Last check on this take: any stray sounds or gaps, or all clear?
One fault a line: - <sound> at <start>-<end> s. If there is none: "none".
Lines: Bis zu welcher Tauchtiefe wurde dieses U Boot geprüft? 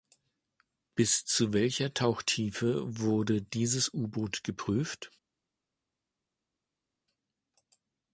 none